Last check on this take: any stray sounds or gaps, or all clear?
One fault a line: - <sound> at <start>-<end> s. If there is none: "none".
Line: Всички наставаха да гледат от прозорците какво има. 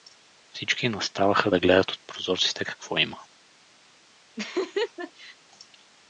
- laugh at 4.4-5.4 s